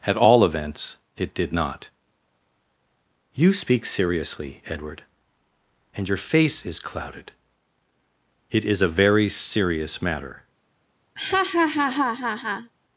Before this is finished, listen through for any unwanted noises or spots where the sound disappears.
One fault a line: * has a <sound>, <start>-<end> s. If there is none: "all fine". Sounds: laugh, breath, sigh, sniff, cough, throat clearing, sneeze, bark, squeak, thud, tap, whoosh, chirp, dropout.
* has a laugh, 11.2-12.7 s